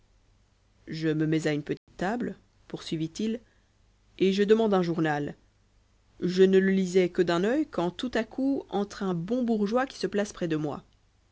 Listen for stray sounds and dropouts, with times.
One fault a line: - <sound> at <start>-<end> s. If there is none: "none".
- dropout at 1.8-1.9 s